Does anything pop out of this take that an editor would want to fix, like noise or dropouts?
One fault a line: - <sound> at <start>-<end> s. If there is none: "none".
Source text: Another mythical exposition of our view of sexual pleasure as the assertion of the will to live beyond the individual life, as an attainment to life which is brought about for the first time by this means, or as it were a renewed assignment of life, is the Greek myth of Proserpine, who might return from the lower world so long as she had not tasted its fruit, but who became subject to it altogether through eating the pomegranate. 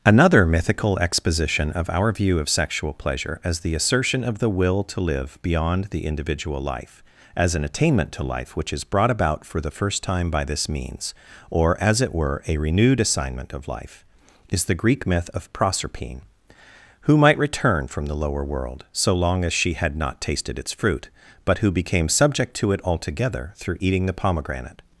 none